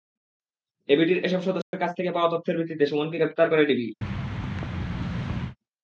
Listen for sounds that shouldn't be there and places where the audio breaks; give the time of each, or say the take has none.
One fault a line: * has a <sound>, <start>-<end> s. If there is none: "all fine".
* has a dropout, 1.6-1.7 s
* has a thud, 4.0-5.6 s